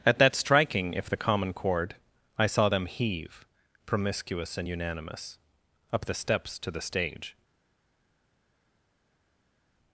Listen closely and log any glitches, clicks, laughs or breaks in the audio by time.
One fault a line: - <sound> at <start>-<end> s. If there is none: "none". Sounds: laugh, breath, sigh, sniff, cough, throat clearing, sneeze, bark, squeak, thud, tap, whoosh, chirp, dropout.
none